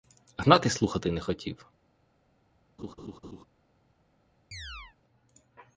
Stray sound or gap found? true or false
true